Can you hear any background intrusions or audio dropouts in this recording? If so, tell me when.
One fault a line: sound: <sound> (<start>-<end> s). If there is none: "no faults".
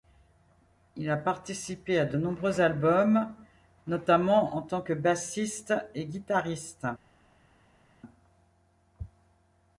no faults